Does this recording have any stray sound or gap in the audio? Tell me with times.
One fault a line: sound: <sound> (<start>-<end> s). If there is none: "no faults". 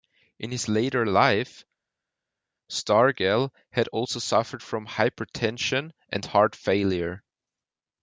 no faults